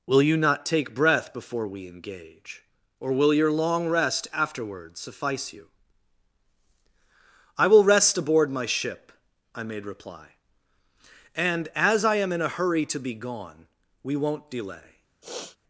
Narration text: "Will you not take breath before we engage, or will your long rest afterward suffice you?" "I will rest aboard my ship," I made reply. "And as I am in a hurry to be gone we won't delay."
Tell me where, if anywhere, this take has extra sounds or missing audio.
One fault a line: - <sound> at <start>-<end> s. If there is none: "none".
- sniff at 15.2-15.6 s